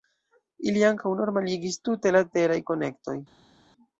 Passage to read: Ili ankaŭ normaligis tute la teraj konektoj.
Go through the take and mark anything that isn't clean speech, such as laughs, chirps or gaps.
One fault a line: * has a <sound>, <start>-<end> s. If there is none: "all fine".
all fine